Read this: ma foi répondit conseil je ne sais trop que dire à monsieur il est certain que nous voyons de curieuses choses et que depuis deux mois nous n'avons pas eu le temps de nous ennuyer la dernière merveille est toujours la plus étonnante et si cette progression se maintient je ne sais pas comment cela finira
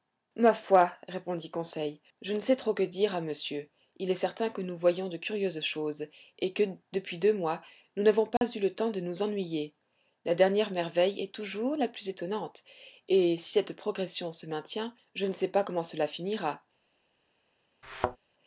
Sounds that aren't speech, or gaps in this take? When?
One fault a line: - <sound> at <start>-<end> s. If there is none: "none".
- dropout at 8.4-8.4 s
- thud at 17.8-18.2 s